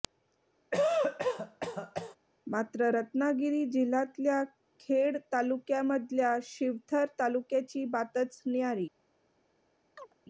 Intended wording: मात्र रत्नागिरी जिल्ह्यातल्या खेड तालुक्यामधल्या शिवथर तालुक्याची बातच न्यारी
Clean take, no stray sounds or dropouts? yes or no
no